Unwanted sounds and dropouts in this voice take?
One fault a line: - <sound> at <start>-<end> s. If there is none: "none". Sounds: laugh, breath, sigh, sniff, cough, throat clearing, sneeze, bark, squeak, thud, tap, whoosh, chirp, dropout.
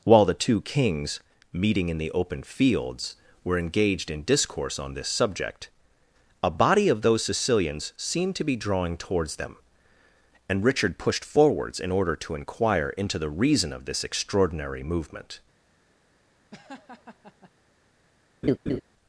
- laugh at 16.5-17.5 s
- laugh at 18.4-18.8 s